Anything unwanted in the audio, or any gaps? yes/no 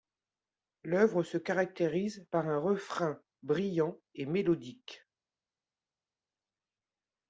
no